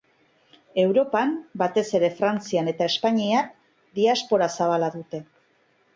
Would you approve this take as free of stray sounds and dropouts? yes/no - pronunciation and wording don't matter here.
yes